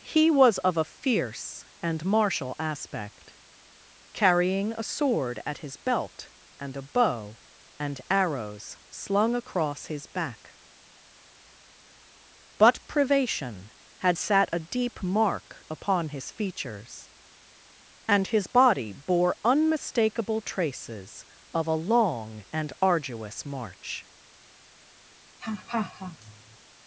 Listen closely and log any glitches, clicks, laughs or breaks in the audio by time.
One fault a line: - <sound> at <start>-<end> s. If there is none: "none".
- laugh at 25.4-26.6 s